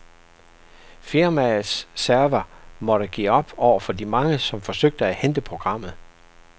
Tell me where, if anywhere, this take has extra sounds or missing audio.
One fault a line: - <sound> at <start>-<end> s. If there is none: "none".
none